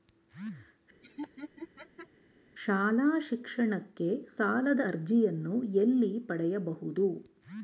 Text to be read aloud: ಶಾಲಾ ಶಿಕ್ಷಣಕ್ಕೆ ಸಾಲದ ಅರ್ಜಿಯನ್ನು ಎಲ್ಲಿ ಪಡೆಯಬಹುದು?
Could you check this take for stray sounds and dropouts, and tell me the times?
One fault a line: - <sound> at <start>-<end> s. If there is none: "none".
- laugh at 1.0-2.1 s